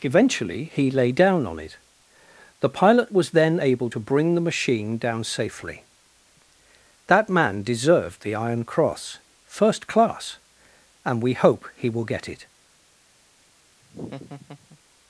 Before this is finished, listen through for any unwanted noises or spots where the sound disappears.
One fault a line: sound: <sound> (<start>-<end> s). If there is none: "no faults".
sound: laugh (13.8-14.8 s)